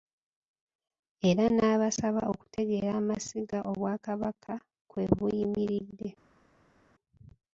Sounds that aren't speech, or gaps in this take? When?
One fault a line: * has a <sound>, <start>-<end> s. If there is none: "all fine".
all fine